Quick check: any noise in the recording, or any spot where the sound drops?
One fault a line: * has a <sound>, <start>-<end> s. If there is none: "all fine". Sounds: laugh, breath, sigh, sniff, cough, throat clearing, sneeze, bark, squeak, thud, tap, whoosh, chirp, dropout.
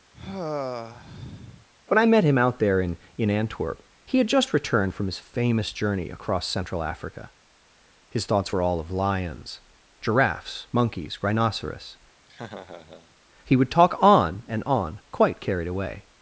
* has a sigh, 0.1-1.7 s
* has a laugh, 12.3-13.2 s